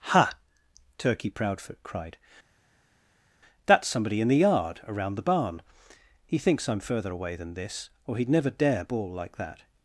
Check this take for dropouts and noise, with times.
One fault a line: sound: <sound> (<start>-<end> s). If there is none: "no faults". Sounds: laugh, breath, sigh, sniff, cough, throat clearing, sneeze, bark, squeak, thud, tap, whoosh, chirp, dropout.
no faults